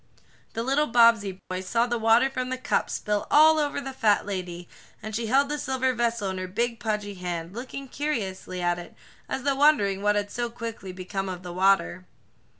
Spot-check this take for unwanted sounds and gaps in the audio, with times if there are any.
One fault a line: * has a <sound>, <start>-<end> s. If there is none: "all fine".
* has a dropout, 1.4-1.5 s